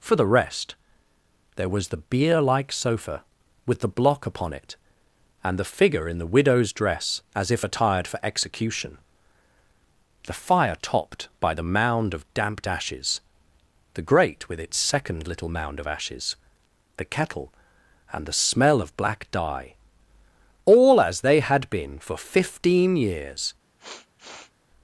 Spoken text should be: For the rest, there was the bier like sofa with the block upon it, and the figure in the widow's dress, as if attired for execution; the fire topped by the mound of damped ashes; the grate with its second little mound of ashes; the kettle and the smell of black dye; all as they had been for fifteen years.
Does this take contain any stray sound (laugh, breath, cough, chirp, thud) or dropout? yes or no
yes